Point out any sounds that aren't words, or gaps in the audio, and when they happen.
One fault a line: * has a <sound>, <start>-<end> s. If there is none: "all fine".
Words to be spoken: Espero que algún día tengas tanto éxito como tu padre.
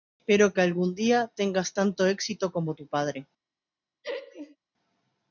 * has a laugh, 4.0-4.6 s